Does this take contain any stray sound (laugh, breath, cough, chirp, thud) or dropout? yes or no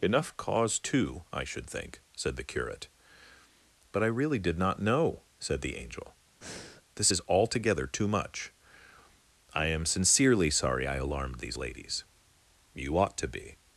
yes